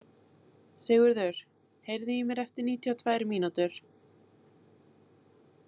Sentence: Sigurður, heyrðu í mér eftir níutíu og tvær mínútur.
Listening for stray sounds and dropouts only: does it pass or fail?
pass